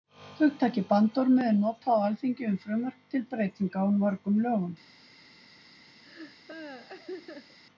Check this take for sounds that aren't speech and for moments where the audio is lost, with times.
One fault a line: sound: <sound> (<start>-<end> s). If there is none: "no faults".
sound: laugh (6.0-7.6 s)